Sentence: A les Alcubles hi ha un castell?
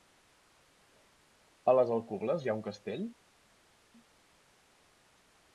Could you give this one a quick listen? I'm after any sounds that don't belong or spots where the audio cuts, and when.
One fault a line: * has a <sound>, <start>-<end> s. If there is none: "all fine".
all fine